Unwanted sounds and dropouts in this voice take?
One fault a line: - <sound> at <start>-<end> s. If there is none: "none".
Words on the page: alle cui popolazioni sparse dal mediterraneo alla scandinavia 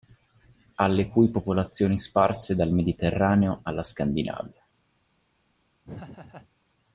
- laugh at 5.8-6.5 s